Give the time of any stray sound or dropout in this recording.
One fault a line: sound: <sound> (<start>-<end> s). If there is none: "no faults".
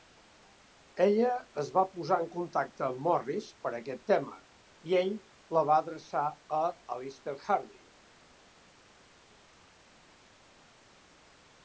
no faults